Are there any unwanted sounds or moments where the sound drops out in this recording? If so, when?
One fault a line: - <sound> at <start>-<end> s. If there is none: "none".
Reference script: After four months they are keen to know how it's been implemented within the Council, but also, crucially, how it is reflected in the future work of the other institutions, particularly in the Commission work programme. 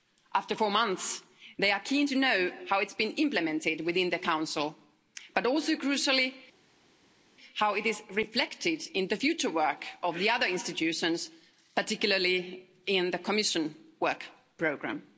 none